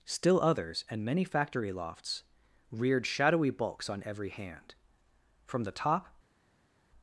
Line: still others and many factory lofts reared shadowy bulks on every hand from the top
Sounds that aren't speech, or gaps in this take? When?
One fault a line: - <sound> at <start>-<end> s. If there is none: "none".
none